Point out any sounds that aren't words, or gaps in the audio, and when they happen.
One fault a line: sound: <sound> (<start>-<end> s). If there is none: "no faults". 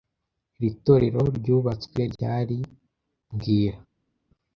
no faults